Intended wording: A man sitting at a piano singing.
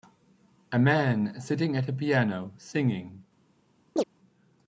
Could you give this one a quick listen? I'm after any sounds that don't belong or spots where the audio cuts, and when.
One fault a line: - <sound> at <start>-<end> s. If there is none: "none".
- chirp at 4.0-4.0 s